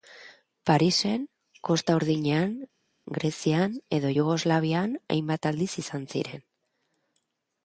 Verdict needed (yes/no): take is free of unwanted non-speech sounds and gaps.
yes